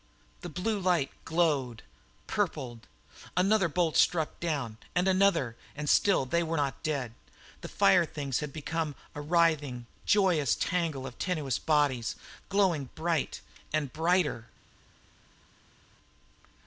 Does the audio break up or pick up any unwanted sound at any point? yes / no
no